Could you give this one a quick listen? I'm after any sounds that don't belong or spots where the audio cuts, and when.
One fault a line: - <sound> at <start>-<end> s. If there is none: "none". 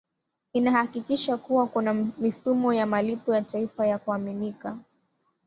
none